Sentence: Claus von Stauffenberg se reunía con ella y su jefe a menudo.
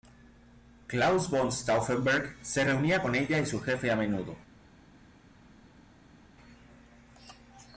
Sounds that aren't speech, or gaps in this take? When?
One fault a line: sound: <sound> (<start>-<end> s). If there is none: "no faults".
no faults